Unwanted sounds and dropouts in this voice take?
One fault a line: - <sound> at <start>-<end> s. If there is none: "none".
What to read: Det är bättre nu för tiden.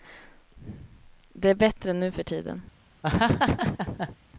- laugh at 3.0-4.2 s